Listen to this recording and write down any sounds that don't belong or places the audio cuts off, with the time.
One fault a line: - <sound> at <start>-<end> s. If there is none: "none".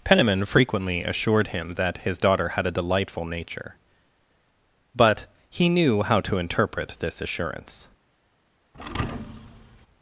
- thud at 8.7-9.9 s